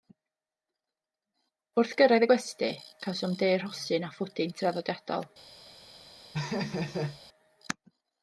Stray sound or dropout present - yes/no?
yes